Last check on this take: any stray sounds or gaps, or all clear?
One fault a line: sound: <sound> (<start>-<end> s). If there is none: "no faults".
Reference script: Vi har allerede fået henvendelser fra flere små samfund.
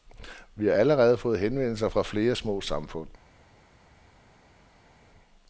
no faults